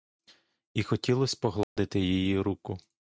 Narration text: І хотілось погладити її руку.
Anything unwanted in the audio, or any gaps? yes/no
yes